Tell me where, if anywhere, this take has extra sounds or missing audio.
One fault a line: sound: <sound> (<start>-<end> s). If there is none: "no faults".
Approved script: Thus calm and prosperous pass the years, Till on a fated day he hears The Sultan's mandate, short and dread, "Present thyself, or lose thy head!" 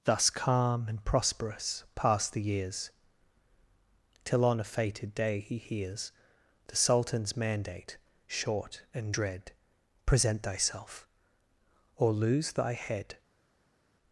no faults